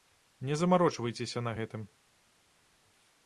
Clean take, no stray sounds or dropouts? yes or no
yes